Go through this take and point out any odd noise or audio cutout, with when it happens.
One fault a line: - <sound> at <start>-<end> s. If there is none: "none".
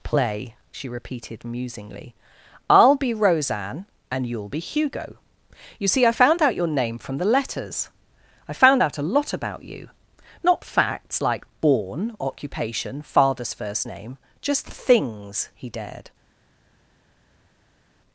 none